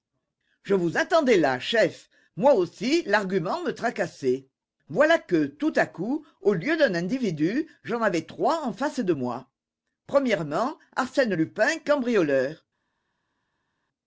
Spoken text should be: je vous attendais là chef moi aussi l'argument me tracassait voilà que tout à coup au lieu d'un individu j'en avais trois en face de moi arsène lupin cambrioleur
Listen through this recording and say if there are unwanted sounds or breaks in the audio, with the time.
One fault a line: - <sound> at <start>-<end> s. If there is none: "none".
none